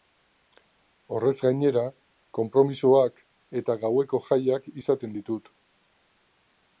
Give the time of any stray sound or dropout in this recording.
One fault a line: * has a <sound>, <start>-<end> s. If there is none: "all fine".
all fine